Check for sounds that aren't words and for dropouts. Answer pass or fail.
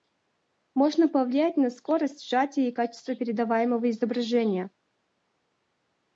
pass